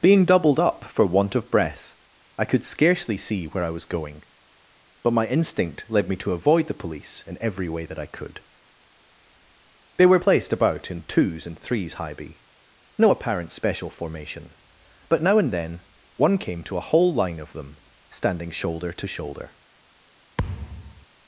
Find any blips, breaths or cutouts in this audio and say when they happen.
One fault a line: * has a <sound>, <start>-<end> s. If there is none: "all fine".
* has a thud, 20.4-21.1 s